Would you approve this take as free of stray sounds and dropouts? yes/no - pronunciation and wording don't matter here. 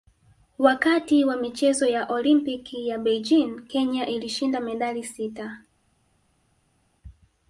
yes